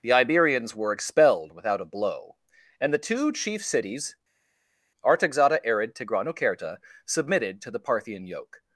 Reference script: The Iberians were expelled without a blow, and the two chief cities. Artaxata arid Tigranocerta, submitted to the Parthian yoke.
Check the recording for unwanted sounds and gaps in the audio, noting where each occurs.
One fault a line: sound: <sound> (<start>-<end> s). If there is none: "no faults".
no faults